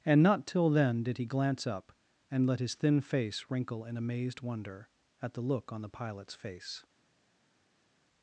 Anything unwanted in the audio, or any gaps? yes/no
no